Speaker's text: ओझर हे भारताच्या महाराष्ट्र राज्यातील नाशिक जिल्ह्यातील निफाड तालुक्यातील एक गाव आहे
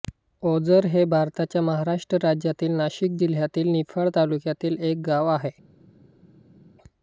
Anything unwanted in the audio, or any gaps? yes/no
no